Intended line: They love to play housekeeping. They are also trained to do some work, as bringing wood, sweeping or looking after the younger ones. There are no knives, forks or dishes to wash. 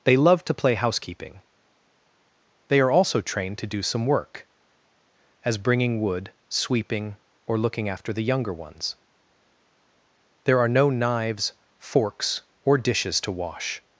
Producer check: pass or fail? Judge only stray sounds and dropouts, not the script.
pass